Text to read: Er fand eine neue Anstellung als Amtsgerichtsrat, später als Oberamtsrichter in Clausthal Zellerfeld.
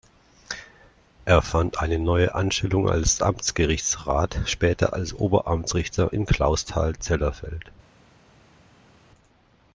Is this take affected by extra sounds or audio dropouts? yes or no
no